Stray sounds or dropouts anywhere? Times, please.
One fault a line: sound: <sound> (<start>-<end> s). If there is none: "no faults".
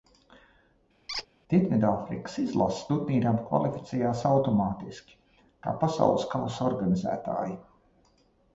sound: squeak (1.1-1.3 s)